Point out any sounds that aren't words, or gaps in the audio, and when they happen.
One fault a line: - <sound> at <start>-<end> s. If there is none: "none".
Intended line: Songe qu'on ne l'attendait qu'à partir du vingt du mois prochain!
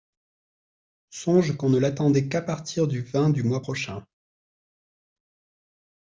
none